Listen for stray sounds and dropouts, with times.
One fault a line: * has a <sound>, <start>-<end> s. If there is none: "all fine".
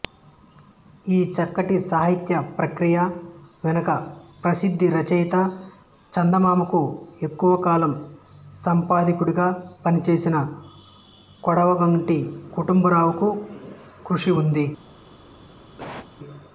* has a cough, 15.8-16.1 s